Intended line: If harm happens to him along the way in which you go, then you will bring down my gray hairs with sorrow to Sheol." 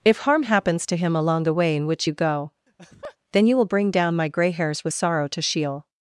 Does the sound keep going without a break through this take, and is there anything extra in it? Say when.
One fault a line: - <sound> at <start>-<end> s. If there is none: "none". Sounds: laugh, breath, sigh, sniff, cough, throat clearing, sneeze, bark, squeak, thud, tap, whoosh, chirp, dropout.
- laugh at 2.7-3.2 s